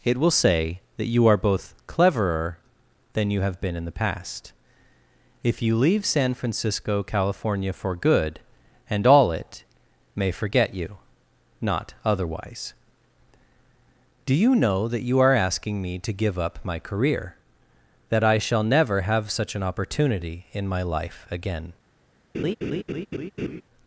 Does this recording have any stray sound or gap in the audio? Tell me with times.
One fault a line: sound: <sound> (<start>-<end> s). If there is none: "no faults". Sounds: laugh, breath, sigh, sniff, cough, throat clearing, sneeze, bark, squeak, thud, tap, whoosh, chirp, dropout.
sound: laugh (22.3-23.6 s)